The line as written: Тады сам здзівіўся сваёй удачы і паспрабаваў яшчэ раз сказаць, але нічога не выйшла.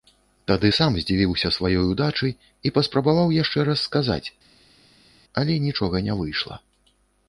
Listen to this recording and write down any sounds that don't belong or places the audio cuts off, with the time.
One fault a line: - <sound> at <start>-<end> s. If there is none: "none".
none